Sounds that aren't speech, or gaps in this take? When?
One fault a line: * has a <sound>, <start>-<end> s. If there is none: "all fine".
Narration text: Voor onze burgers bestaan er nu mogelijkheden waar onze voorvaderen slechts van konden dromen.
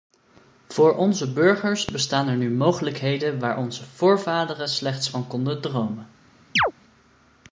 * has a chirp, 6.6-6.7 s